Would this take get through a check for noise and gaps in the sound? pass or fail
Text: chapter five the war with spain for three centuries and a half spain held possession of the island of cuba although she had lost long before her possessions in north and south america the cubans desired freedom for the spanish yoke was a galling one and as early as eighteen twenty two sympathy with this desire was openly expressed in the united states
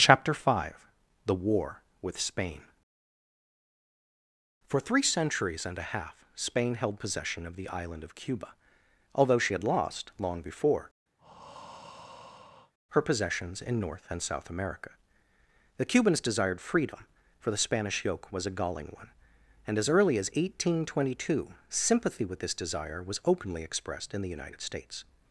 fail